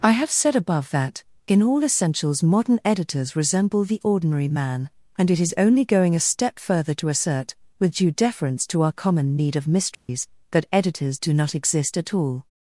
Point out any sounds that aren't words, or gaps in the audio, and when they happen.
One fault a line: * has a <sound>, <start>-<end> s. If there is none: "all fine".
* has a dropout, 9.9-10.1 s